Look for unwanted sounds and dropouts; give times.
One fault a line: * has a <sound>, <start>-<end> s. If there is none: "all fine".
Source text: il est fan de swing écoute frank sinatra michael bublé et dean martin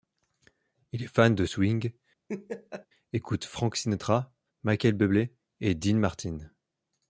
* has a laugh, 2.3-2.9 s